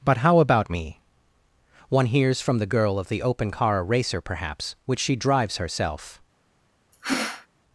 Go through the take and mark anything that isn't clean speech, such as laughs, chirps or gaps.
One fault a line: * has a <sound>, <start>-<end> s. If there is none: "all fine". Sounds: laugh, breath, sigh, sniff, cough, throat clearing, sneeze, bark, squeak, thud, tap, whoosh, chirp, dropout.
* has a sneeze, 6.9-7.5 s